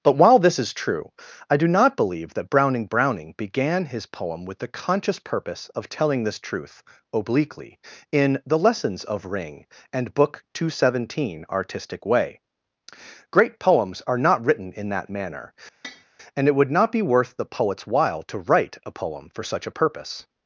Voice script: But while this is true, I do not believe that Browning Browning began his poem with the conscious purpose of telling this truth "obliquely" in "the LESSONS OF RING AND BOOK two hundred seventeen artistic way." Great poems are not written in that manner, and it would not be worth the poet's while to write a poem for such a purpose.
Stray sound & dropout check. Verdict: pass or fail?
fail